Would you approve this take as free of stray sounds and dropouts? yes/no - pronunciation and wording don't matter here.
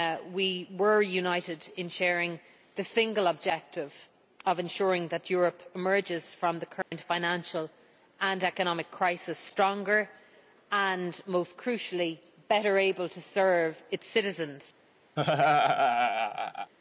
no